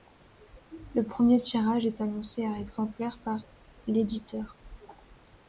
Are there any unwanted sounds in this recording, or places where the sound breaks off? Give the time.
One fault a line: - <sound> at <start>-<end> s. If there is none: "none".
none